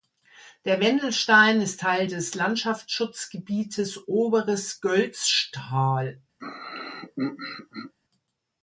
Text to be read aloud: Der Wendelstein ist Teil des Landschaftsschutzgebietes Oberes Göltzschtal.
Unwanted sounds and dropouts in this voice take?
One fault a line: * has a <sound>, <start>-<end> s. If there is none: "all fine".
* has a throat clearing, 6.4-7.9 s